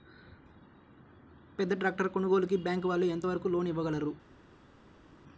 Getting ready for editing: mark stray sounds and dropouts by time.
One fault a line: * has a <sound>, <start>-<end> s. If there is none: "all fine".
all fine